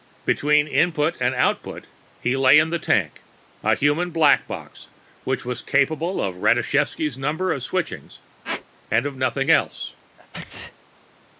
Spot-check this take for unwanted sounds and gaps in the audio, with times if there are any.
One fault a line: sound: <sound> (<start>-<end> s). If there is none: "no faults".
sound: squeak (8.4-8.7 s)
sound: sneeze (10.2-10.8 s)